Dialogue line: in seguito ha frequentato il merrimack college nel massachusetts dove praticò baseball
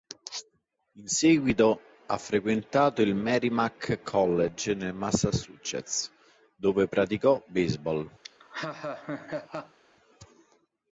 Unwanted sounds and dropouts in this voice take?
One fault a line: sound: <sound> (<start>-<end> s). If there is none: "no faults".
sound: laugh (8.2-9.8 s)